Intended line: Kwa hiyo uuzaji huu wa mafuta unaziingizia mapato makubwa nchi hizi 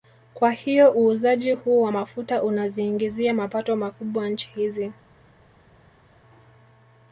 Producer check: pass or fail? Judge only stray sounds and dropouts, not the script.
pass